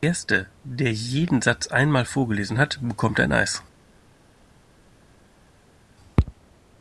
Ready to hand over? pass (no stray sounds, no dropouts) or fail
pass